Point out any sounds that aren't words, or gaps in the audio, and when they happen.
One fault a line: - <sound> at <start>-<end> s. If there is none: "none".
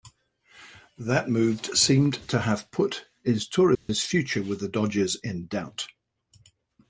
- dropout at 3.7-3.9 s